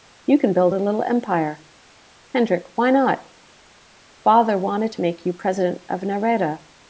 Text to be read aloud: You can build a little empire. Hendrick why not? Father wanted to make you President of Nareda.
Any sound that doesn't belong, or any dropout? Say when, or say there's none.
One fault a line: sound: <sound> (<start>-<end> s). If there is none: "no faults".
no faults